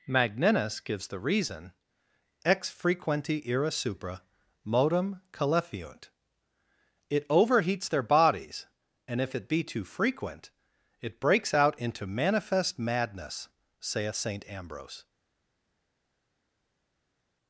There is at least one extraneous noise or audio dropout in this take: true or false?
false